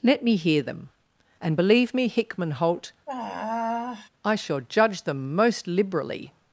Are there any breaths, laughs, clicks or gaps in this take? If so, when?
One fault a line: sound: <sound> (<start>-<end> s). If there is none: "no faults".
sound: sigh (3.1-4.1 s)